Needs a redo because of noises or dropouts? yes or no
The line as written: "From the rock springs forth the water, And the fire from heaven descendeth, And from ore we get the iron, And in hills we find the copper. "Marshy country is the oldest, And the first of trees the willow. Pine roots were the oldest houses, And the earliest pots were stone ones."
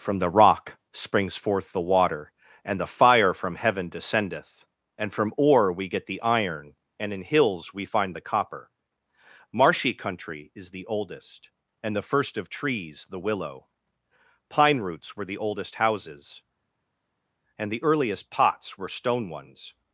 no